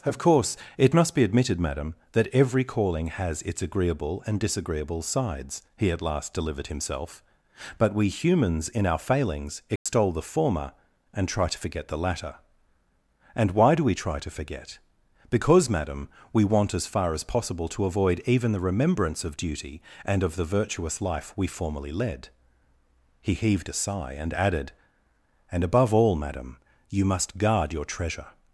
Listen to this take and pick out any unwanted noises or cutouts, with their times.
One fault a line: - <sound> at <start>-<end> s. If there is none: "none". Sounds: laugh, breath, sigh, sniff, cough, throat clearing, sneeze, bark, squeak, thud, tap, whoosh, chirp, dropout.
- dropout at 9.8-9.9 s